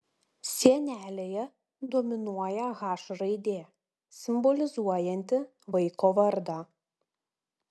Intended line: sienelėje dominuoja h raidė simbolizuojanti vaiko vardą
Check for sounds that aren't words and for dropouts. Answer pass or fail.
pass